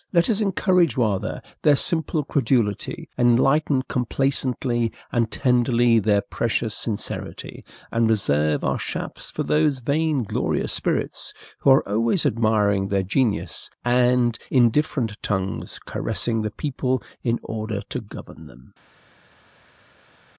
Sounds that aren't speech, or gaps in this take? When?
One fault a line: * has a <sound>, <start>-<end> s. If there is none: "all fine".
all fine